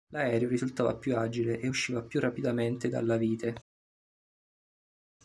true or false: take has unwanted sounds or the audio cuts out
false